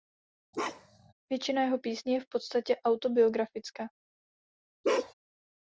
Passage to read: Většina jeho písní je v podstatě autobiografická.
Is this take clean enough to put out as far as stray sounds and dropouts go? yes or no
no